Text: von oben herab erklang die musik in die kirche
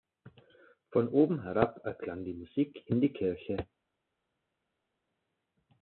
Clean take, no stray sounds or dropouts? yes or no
yes